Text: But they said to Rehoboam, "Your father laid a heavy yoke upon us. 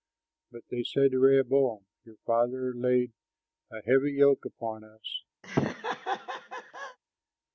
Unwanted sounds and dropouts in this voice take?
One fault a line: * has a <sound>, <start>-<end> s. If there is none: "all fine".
* has a laugh, 5.4-7.0 s